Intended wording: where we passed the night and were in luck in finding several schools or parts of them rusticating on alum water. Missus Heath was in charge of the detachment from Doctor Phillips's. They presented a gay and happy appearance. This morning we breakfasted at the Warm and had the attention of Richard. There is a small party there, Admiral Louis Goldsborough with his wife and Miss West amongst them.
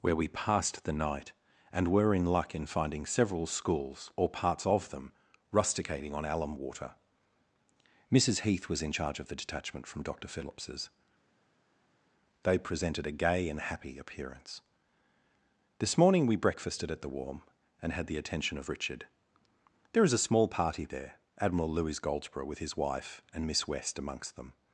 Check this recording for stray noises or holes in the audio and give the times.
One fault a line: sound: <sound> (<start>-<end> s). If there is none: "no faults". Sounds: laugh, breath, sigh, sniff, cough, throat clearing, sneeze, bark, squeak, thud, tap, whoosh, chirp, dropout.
no faults